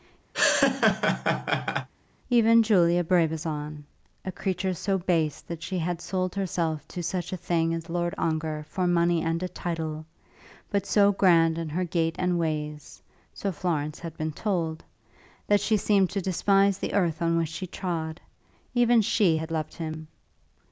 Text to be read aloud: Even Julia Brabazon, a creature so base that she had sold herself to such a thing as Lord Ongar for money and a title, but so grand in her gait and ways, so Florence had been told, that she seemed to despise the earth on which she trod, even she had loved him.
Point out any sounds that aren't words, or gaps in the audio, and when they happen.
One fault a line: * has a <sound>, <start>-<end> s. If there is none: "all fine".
* has a laugh, 0.3-1.9 s